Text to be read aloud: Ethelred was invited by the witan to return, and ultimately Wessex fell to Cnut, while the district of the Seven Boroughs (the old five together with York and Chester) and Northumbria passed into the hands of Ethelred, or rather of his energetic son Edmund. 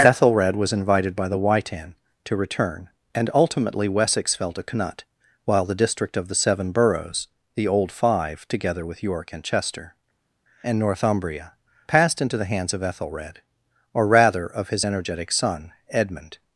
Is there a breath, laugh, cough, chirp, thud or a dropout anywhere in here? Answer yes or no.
no